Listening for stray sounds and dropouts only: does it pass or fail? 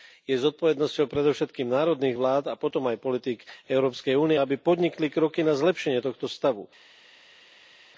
pass